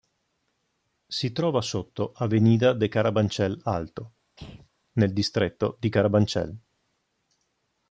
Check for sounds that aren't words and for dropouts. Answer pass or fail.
fail